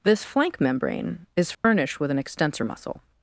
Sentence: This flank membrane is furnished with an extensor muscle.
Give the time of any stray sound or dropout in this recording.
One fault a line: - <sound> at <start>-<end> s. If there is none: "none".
- dropout at 1.5-1.6 s